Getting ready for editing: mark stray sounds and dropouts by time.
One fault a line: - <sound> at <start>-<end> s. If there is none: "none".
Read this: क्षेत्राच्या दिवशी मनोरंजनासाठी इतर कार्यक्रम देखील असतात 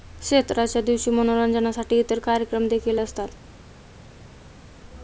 none